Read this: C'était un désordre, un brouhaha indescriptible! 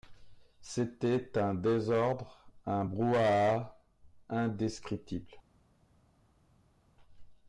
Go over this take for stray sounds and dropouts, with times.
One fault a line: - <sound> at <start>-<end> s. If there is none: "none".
none